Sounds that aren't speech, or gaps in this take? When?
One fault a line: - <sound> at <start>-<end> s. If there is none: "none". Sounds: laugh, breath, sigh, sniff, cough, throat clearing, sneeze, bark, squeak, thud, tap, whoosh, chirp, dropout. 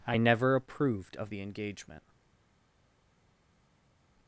none